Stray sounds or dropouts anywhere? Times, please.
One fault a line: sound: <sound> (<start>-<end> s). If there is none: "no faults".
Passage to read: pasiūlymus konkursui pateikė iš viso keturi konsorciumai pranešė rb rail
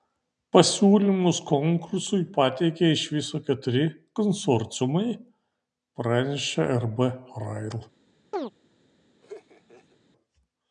sound: chirp (8.3-8.5 s)
sound: laugh (9.2-10.0 s)